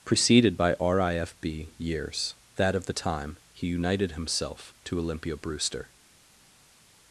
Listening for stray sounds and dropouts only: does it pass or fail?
pass